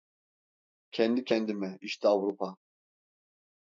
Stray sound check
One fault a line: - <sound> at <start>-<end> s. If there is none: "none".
none